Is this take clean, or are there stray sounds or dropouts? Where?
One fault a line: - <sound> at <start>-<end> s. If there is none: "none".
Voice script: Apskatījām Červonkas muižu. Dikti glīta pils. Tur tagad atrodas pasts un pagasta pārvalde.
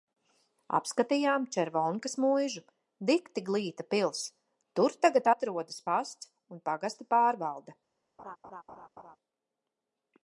- laugh at 8.2-9.2 s